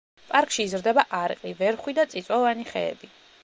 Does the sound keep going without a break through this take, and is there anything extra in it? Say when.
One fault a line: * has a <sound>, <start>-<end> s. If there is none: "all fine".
all fine